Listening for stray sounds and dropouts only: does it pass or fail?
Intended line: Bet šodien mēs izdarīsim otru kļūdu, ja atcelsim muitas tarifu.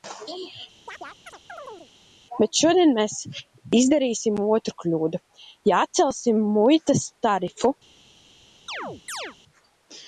fail